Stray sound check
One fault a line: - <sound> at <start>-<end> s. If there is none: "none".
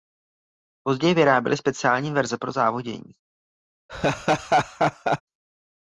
- laugh at 3.9-5.2 s